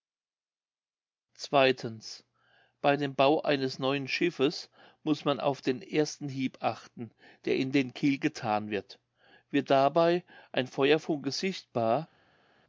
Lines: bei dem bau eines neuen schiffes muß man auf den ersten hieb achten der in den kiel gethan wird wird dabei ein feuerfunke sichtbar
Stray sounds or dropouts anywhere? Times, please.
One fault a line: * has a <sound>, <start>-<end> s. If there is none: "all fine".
all fine